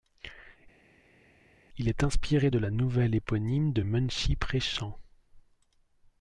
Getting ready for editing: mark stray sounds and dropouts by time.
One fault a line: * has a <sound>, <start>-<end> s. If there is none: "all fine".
all fine